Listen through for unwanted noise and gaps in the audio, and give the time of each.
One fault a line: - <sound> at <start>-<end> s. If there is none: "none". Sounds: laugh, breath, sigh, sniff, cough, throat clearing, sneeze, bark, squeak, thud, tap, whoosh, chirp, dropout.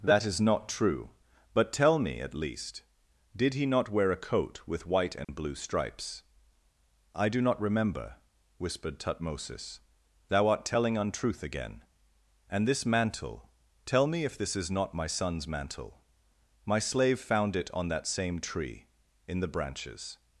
- dropout at 5.2-5.3 s